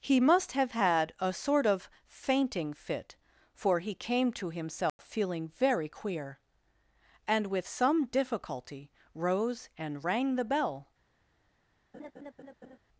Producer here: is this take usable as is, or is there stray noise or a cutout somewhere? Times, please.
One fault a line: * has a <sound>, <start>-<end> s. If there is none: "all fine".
* has a dropout, 4.9-5.0 s
* has a laugh, 11.9-12.8 s